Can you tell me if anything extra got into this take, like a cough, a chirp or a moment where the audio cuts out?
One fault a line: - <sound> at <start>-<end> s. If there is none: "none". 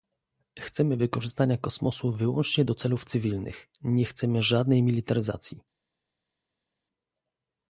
none